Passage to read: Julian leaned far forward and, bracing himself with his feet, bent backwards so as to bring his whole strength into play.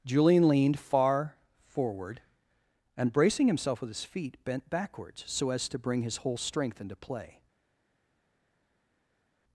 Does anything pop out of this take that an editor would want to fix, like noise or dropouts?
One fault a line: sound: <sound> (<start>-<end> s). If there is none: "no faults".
no faults